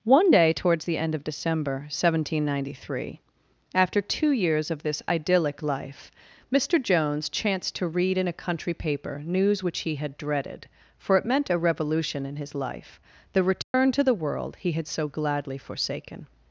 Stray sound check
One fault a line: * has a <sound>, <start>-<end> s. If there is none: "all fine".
* has a dropout, 13.6-13.7 s